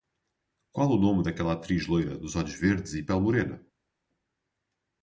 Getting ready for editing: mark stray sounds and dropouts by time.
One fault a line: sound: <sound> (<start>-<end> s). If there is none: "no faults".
no faults